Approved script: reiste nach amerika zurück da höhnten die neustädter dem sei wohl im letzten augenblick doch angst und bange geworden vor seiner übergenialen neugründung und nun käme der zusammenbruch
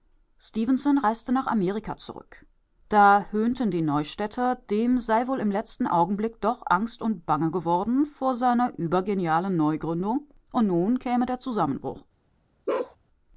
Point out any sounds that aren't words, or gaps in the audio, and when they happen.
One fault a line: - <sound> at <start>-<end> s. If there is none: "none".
- bark at 12.7-13.0 s